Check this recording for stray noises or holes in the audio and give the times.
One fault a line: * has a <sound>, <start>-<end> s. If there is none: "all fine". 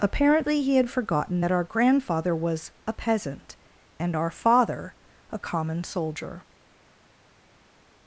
all fine